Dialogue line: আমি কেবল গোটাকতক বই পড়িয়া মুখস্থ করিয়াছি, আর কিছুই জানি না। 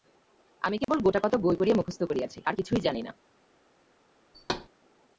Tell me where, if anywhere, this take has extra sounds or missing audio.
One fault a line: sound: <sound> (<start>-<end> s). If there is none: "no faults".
sound: dropout (0.8-0.9 s)
sound: thud (4.3-4.7 s)